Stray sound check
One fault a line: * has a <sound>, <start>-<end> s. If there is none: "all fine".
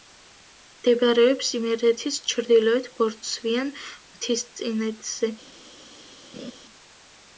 * has a laugh, 6.3-6.5 s